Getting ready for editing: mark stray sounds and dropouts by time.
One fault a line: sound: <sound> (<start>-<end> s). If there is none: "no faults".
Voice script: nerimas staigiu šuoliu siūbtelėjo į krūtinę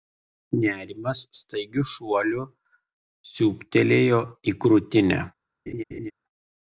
sound: laugh (5.7-6.1 s)